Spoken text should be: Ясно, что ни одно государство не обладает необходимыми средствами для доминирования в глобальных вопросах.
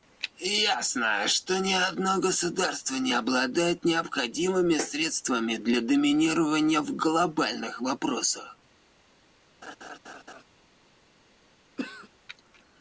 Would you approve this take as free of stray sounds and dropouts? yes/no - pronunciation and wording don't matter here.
no